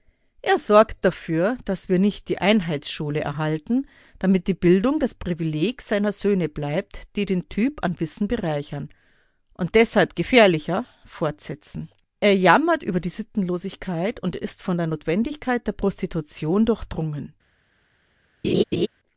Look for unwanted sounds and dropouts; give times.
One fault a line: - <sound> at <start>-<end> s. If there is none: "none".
- laugh at 18.4-18.9 s